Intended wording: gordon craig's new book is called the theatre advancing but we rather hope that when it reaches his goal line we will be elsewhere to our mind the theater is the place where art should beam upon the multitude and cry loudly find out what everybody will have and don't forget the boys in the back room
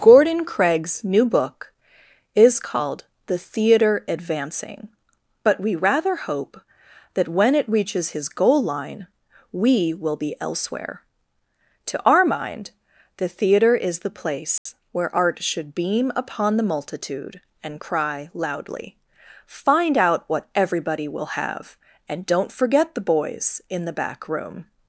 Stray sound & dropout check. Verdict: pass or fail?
fail